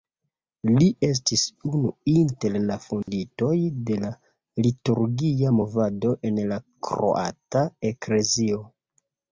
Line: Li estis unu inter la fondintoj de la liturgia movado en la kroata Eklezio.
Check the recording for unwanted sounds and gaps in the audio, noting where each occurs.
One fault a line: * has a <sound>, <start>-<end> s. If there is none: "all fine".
* has a dropout, 3.0-3.1 s